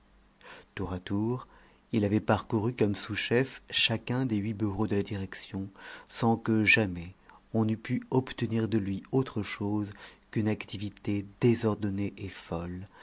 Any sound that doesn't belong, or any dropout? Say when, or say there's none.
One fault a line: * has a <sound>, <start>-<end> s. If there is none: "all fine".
all fine